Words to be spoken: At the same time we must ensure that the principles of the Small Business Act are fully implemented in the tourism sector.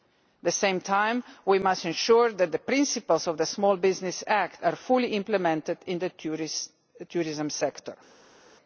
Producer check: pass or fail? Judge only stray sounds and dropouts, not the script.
pass